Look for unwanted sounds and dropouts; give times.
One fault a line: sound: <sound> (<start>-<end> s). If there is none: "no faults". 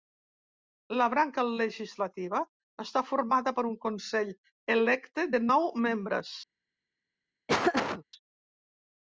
sound: laugh (7.5-8.0 s)